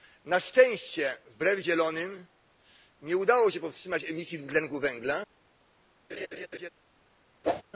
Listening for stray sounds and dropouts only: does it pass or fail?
fail